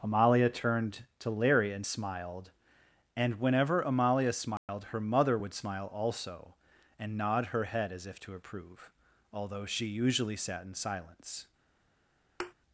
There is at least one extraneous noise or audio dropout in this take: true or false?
true